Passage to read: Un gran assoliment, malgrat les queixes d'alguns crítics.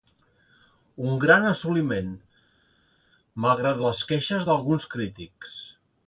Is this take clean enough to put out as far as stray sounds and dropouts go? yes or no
yes